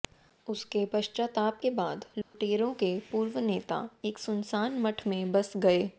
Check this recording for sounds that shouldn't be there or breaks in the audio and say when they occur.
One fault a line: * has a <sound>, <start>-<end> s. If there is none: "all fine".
* has a dropout, 2.2-2.3 s